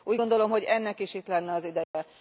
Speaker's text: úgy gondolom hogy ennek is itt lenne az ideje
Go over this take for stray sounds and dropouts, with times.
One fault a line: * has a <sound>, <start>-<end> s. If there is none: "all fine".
* has a dropout, 1.8-1.9 s